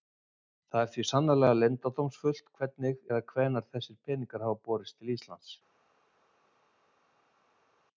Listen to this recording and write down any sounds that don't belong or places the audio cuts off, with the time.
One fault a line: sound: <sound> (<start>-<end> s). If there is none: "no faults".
no faults